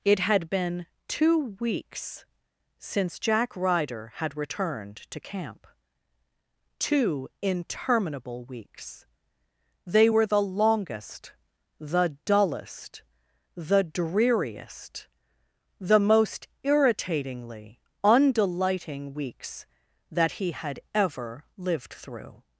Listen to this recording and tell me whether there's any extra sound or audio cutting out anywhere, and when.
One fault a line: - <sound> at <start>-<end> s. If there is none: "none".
none